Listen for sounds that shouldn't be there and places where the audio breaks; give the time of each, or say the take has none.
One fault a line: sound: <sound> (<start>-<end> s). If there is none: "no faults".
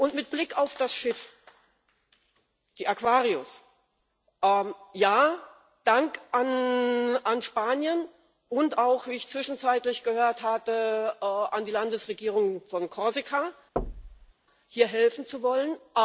sound: thud (13.8-14.3 s)